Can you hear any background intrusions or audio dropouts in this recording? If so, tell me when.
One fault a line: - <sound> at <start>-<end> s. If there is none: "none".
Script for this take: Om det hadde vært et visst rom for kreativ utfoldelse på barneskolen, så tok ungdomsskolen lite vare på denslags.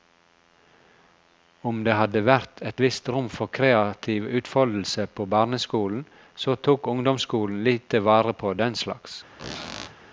- squeak at 9.4-10.0 s